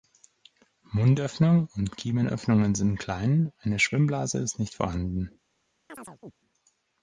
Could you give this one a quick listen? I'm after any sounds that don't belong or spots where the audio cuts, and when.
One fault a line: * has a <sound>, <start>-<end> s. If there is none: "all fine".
* has a chirp, 5.9-6.3 s